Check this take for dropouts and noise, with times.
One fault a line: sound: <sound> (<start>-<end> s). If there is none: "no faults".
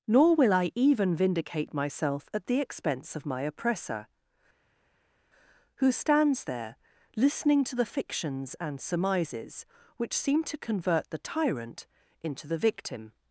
no faults